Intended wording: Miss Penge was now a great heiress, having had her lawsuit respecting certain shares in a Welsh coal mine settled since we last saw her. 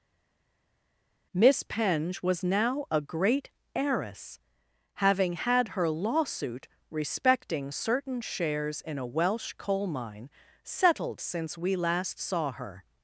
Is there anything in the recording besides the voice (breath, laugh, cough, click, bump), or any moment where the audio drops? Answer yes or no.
no